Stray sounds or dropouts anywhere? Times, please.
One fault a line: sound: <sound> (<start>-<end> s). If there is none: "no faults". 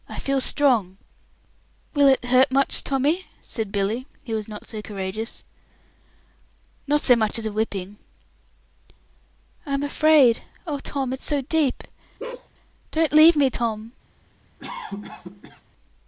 sound: bark (12.2-12.5 s)
sound: cough (14.6-15.6 s)